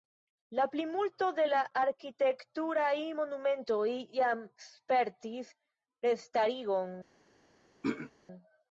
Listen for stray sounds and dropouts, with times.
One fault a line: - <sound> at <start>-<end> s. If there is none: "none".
- throat clearing at 7.8-8.1 s